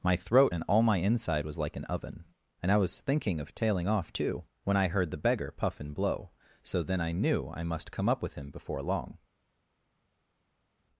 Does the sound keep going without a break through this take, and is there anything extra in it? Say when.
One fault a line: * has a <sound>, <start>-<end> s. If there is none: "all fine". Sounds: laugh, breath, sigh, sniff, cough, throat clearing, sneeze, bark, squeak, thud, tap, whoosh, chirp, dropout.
all fine